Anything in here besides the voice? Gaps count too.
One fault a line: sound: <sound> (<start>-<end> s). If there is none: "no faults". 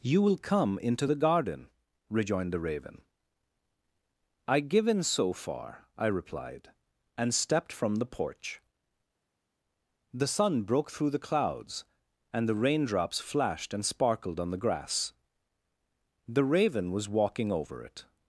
no faults